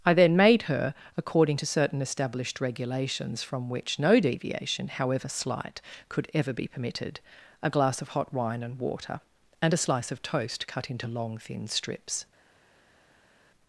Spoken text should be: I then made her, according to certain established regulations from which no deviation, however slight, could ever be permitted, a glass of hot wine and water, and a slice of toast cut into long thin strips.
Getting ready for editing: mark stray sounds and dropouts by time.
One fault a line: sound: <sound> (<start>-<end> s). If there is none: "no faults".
no faults